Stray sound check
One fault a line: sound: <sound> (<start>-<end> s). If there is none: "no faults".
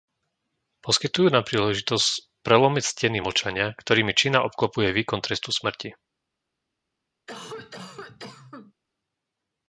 sound: cough (7.3-8.7 s)